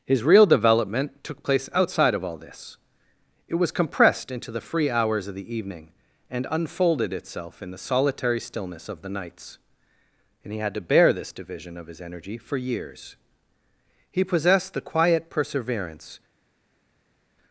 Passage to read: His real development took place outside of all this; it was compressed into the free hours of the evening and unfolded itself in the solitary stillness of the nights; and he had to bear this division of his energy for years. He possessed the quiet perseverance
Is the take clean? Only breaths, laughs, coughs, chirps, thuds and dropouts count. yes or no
yes